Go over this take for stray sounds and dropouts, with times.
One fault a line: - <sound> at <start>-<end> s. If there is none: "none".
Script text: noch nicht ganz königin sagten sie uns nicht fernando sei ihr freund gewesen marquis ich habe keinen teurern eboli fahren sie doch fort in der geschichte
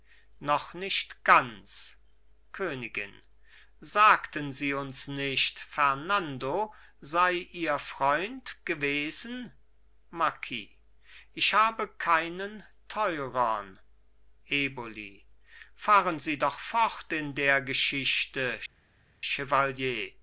none